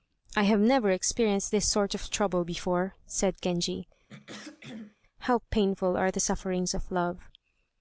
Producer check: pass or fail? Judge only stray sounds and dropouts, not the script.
fail